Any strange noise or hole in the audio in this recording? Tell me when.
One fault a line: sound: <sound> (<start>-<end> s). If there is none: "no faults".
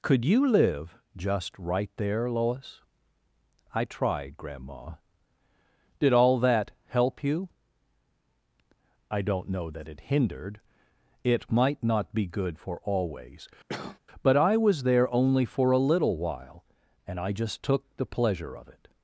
sound: cough (13.7-14.0 s)